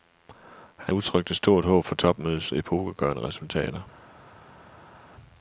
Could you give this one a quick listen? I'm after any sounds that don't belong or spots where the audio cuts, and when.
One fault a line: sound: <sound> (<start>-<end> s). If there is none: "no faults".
no faults